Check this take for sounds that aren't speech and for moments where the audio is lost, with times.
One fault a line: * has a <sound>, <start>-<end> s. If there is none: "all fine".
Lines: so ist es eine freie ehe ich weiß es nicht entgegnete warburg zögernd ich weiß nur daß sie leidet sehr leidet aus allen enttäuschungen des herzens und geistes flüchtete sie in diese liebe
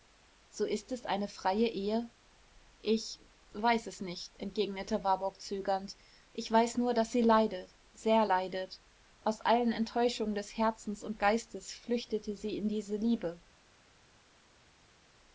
all fine